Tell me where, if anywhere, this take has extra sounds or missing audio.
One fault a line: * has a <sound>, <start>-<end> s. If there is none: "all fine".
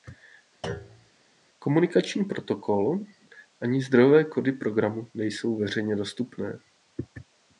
* has a thud, 0.6-1.1 s